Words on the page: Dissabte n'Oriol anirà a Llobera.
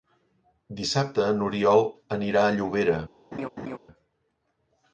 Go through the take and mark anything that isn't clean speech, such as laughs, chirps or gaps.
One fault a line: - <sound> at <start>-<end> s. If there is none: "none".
- laugh at 3.3-3.8 s